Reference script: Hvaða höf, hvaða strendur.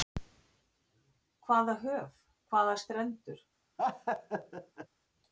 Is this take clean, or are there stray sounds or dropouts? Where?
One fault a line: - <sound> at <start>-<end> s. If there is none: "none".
- laugh at 3.8-4.9 s